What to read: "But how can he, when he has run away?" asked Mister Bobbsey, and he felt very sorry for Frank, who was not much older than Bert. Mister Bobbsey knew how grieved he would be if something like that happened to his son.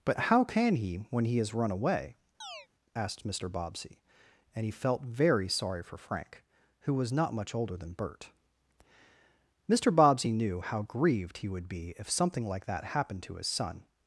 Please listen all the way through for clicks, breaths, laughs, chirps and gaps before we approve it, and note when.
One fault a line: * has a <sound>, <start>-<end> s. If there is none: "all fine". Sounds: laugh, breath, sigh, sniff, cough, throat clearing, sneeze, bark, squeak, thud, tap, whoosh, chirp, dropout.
* has a chirp, 2.4-2.7 s